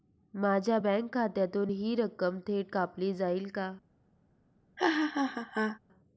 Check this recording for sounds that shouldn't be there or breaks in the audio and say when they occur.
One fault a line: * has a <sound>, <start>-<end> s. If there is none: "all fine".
* has a laugh, 4.8-5.8 s